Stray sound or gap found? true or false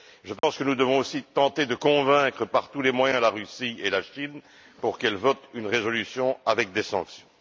true